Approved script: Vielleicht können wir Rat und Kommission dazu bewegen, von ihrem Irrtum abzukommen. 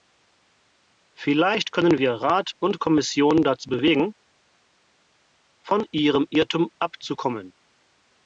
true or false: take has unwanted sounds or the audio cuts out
false